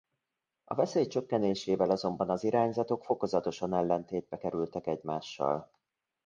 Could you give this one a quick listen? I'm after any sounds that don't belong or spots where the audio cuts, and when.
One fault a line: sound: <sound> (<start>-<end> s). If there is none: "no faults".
no faults